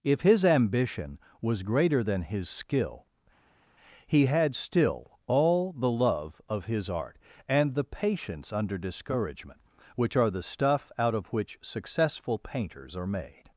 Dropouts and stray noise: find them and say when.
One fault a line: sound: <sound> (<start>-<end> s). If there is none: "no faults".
no faults